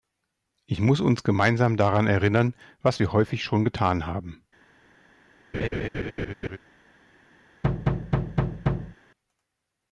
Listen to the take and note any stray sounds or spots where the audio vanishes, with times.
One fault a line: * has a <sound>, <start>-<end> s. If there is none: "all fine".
* has a laugh, 5.5-6.6 s
* has a thud, 7.6-9.0 s